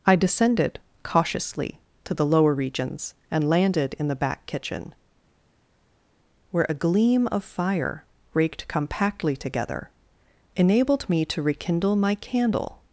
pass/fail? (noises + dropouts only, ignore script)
pass